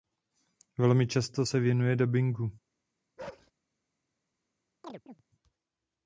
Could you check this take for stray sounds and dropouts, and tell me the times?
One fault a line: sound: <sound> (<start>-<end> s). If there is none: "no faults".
sound: bark (3.2-3.5 s)
sound: chirp (4.8-5.2 s)